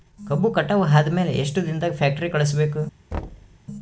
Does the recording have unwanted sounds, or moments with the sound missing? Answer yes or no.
yes